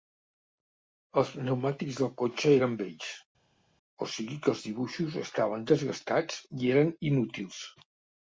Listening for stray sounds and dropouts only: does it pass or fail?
pass